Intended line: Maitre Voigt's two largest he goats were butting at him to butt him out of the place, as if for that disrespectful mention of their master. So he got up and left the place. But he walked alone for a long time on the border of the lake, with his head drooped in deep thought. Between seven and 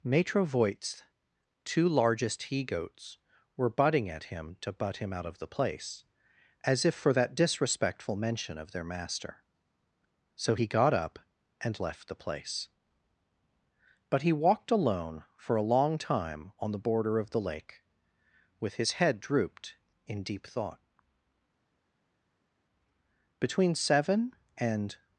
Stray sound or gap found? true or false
false